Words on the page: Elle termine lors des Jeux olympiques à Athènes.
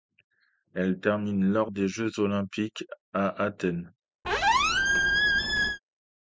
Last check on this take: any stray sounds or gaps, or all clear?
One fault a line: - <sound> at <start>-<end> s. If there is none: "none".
- squeak at 4.2-5.8 s